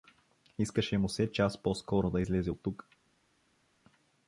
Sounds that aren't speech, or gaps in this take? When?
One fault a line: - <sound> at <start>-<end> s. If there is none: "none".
none